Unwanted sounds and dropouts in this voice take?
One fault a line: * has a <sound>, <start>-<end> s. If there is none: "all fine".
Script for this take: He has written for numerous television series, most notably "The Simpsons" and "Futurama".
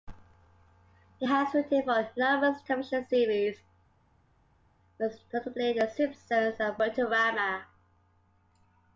all fine